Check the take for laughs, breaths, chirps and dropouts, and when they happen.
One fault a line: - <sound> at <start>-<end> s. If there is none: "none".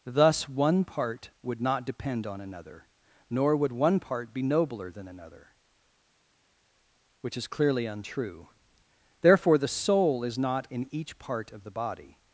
none